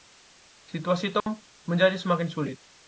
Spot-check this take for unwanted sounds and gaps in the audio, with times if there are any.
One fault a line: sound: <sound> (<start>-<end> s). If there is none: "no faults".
sound: dropout (1.2-1.3 s)